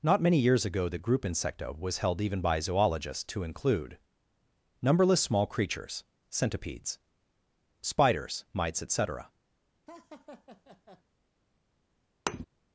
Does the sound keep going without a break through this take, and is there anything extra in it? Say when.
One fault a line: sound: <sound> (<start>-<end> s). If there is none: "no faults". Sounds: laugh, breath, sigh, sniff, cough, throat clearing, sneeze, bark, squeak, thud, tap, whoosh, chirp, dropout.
sound: laugh (9.9-11.0 s)
sound: thud (12.3-12.5 s)